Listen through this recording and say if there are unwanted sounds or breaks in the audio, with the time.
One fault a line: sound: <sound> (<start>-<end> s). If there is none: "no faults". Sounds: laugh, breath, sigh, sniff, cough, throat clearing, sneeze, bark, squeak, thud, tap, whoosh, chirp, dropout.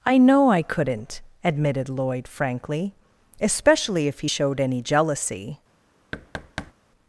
sound: thud (6.1-6.7 s)